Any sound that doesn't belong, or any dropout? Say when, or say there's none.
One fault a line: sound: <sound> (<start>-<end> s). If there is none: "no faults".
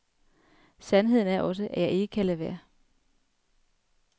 no faults